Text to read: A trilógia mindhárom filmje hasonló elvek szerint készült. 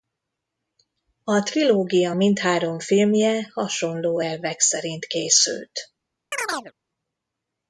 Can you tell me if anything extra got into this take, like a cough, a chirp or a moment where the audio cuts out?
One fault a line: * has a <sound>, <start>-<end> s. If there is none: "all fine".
* has a chirp, 6.3-6.7 s